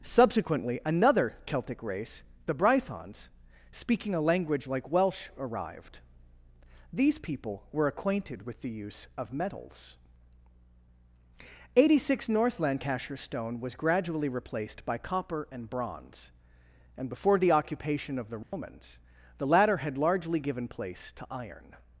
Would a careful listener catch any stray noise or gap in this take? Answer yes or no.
yes